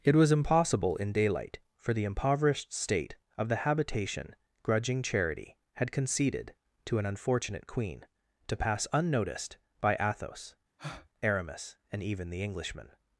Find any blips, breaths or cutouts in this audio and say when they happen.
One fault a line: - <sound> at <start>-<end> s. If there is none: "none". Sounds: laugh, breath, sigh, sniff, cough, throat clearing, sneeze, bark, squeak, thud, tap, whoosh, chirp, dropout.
- breath at 10.8-11.1 s